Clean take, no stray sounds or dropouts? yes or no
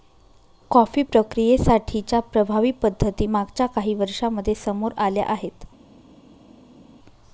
yes